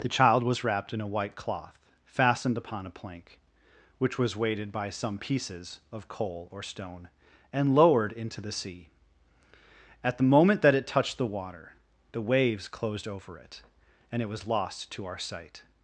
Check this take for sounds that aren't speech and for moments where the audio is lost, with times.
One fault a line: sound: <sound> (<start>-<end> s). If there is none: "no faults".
no faults